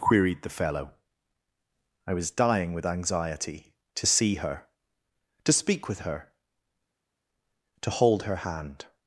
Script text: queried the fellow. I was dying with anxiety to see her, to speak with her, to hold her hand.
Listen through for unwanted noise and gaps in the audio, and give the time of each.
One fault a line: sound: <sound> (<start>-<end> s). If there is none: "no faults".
no faults